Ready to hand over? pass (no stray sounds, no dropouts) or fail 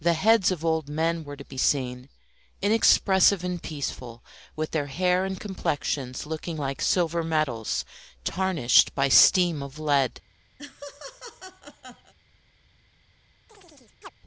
fail